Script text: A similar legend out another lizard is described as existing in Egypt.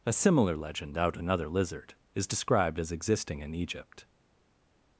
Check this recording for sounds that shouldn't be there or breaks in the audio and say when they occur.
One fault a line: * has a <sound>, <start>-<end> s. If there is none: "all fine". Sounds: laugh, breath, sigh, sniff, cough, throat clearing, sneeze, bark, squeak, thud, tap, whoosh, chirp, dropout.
all fine